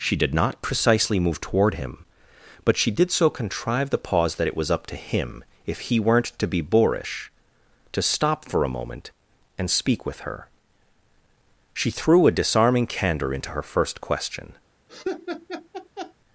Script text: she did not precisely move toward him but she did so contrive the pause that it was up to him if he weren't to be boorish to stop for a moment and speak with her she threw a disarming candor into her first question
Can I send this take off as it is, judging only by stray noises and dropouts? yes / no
no